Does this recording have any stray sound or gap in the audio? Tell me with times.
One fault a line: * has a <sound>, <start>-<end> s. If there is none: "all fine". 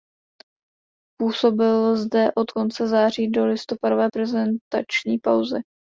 all fine